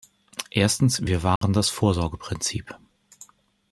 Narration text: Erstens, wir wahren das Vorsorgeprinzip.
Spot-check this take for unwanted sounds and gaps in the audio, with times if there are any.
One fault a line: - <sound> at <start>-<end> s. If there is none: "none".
- dropout at 1.4-1.4 s